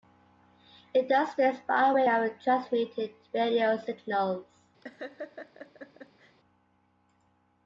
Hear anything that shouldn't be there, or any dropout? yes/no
yes